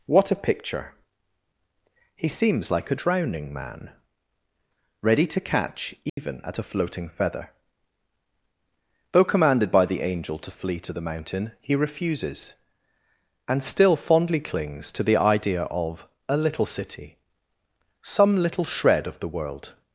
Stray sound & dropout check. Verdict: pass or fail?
fail